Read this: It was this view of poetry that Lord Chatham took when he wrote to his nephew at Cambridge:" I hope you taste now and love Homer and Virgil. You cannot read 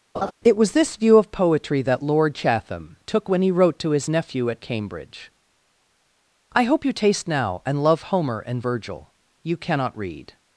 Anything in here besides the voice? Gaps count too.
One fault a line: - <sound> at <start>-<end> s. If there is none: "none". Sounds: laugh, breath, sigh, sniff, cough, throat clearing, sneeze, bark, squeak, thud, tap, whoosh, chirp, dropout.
- laugh at 0.1-0.3 s